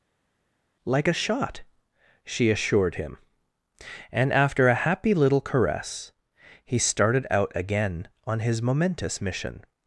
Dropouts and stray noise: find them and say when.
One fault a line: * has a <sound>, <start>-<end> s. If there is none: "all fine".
all fine